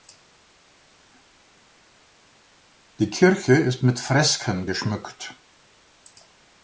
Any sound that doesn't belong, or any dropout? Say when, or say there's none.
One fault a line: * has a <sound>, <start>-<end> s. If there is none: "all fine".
all fine